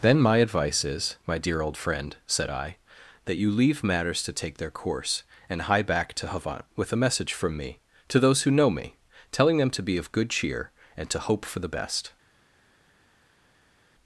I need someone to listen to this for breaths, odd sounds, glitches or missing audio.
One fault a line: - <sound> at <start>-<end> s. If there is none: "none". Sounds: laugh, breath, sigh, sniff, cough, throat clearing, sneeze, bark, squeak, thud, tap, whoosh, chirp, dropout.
none